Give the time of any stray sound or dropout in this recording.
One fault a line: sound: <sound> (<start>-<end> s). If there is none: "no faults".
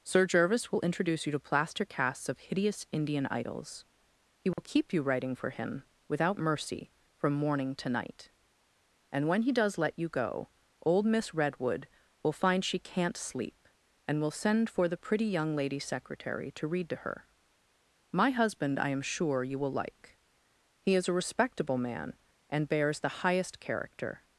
sound: dropout (4.5-4.6 s)